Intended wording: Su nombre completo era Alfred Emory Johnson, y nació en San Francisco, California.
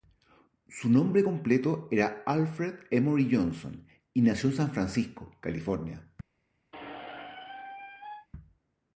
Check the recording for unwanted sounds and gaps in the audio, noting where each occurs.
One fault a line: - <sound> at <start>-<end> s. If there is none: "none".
- squeak at 6.7-8.3 s